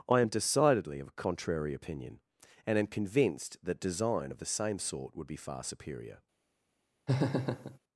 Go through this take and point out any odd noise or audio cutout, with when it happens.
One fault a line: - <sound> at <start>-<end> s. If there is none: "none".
- laugh at 7.1-7.8 s